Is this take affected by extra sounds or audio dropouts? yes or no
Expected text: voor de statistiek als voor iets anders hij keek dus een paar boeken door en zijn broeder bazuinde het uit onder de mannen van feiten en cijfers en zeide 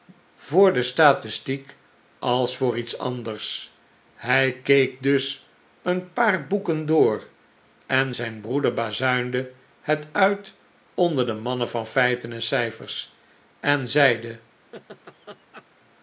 yes